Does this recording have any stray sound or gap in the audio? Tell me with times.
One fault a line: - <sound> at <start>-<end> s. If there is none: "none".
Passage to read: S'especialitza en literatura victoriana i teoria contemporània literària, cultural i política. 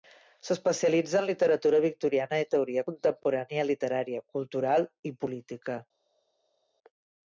none